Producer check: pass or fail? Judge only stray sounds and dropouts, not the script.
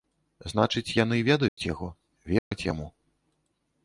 fail